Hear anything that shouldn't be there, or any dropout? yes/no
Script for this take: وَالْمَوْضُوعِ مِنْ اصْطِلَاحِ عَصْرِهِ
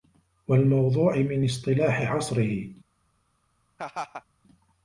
yes